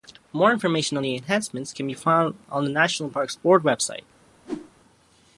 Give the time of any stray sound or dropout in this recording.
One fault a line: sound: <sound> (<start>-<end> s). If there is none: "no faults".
sound: whoosh (4.4-4.7 s)